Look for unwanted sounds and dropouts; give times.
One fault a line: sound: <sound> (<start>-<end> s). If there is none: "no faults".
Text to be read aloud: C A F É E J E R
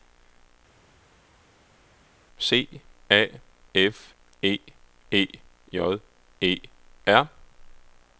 no faults